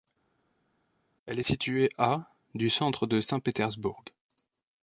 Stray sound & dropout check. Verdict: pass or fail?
pass